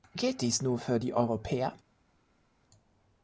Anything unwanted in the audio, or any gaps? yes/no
no